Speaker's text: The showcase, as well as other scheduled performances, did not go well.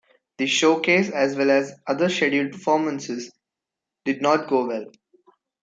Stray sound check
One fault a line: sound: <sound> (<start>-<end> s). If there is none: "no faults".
no faults